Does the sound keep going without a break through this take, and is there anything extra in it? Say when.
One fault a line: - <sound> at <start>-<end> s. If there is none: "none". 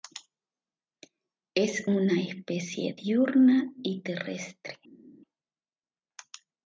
none